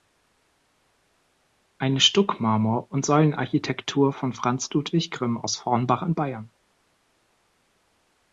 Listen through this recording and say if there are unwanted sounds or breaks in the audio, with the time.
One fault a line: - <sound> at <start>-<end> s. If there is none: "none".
none